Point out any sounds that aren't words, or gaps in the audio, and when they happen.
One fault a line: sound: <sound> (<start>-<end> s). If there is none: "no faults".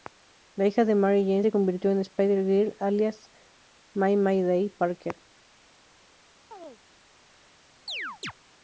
sound: chirp (6.5-6.8 s)
sound: chirp (7.9-8.3 s)